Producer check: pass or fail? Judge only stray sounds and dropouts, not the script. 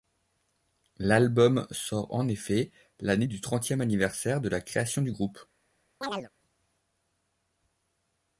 fail